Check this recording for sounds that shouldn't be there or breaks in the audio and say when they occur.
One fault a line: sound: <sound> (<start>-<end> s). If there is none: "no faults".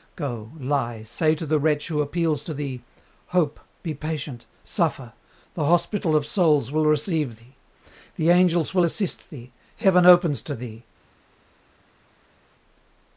no faults